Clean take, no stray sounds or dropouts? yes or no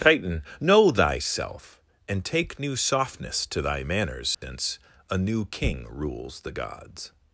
no